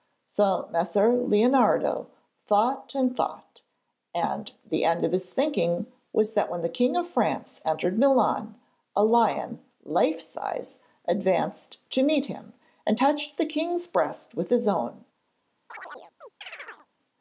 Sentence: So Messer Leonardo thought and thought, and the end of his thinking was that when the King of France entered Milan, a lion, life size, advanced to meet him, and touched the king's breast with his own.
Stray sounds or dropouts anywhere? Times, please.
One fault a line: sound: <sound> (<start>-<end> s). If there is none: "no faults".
sound: chirp (15.7-16.9 s)